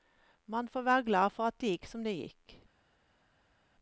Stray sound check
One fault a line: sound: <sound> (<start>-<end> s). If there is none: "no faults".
no faults